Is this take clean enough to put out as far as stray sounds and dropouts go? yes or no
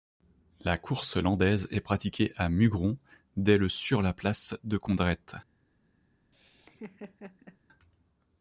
no